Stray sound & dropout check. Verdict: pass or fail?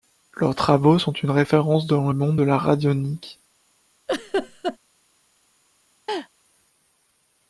fail